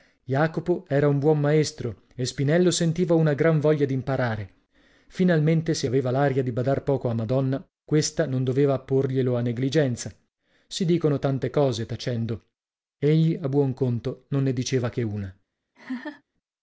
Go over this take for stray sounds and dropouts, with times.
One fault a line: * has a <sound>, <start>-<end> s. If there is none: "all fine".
* has a laugh, 15.7-16.2 s